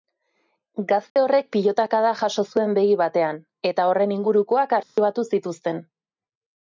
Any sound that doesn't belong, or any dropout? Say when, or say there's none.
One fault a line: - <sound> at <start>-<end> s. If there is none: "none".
- dropout at 1.1-1.2 s
- dropout at 4.8-5.0 s